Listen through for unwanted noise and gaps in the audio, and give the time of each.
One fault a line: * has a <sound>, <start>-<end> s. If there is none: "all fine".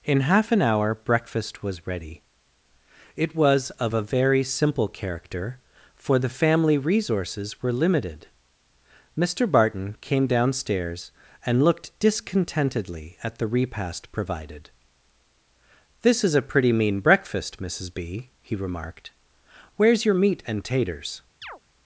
* has a chirp, 21.4-21.6 s